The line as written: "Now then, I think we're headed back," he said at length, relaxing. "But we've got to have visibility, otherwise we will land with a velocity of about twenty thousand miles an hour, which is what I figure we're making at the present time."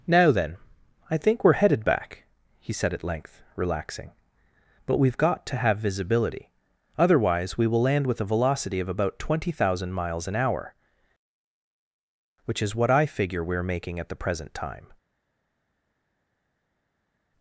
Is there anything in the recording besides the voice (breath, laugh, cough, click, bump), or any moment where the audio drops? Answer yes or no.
no